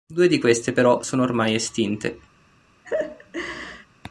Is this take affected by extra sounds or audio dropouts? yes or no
yes